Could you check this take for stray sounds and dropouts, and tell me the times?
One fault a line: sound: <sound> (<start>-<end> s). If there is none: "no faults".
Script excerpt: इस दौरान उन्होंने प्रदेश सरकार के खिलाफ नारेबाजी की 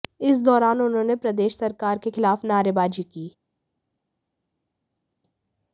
no faults